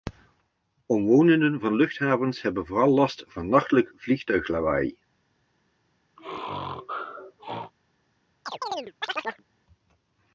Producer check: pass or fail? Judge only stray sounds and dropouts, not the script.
fail